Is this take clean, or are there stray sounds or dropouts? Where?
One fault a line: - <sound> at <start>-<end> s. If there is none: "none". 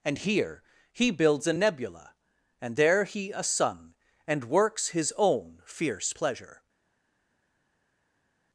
none